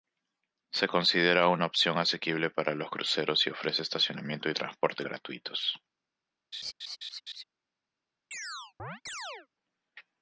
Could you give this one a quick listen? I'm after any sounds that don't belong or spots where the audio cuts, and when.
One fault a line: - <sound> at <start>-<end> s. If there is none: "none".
- laugh at 6.5-7.4 s
- chirp at 8.3-9.5 s